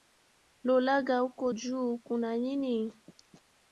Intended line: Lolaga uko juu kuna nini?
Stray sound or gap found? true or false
false